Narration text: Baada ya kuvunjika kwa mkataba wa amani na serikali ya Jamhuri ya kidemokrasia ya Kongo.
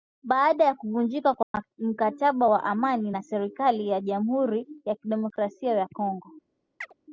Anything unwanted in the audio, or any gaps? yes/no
yes